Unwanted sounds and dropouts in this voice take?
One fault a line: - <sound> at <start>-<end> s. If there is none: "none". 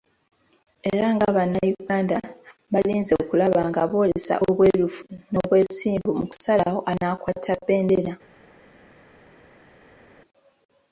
none